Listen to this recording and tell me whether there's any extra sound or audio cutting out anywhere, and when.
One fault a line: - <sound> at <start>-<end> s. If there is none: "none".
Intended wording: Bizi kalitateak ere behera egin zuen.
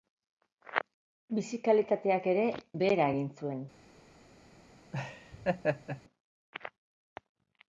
- laugh at 4.9-6.0 s